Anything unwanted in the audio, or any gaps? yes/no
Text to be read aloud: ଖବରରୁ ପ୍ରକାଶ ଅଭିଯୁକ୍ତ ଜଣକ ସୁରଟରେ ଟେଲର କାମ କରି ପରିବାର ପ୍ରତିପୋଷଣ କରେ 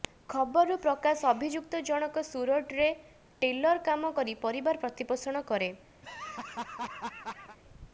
yes